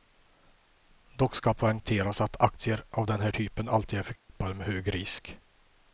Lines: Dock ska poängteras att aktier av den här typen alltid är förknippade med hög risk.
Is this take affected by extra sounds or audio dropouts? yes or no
yes